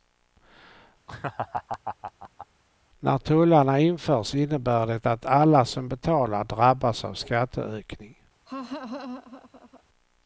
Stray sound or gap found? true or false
true